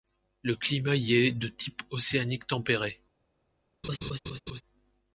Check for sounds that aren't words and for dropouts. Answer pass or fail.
fail